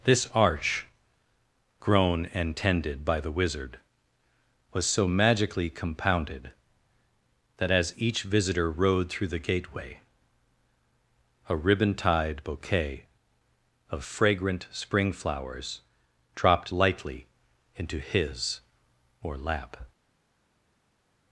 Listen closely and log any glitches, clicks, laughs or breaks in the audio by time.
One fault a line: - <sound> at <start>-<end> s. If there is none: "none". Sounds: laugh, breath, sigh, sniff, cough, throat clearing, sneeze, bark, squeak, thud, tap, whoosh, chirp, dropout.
none